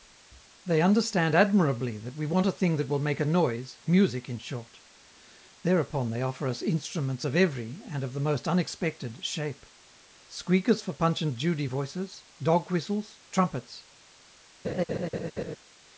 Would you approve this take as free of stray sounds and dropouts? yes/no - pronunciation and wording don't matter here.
no